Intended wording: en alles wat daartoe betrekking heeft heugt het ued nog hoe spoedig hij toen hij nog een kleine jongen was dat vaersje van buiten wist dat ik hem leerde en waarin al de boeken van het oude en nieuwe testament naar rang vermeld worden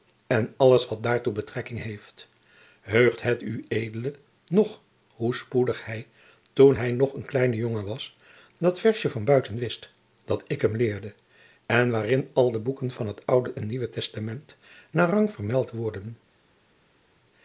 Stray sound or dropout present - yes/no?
no